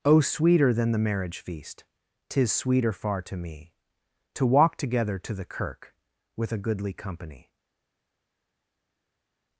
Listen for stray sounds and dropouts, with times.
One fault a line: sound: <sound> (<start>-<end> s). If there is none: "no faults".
no faults